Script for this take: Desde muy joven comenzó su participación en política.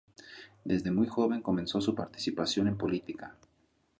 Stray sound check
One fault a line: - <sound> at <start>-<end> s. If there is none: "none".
none